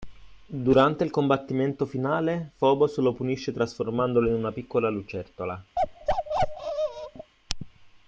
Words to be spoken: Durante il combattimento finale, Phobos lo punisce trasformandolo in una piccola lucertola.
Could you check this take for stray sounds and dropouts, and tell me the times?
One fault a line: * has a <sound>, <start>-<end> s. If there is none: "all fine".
* has a bark, 5.8-7.3 s